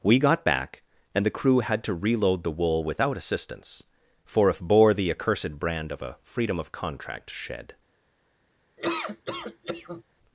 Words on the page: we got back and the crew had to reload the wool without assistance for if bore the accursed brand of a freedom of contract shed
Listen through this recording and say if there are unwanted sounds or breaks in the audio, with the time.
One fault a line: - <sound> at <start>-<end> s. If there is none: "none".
- laugh at 8.8-10.0 s